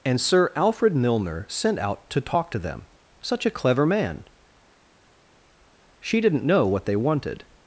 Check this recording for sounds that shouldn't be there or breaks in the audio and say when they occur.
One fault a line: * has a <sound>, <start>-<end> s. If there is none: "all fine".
all fine